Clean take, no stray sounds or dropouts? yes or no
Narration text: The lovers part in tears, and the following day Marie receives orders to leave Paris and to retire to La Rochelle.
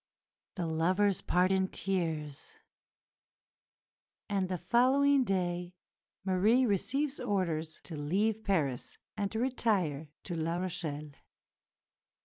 yes